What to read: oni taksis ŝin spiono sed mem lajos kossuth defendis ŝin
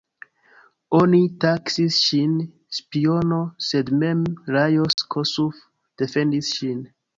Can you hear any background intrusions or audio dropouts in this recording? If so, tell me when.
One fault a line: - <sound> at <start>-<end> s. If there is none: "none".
- dropout at 4.9-5.0 s